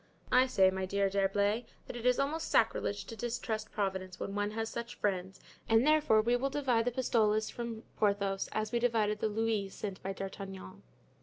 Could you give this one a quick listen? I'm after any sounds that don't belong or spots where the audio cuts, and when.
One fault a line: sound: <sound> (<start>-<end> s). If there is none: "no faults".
no faults